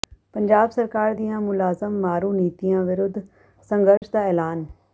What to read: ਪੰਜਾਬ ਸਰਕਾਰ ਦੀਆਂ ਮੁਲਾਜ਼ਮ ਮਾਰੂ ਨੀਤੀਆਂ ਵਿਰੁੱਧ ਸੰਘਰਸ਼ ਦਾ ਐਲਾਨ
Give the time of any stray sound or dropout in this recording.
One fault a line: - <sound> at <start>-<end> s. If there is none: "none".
- dropout at 4.0-4.0 s